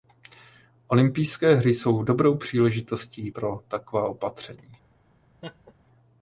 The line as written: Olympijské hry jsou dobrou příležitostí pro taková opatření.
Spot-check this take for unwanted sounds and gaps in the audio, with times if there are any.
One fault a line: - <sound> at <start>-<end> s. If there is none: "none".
- laugh at 5.4-5.7 s